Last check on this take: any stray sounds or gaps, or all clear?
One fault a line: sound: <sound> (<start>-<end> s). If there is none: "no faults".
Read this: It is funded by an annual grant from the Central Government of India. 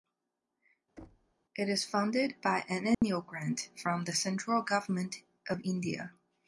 sound: thud (1.0-1.3 s)
sound: dropout (2.9-3.0 s)